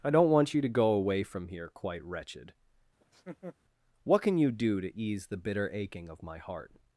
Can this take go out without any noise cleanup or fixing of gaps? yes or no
no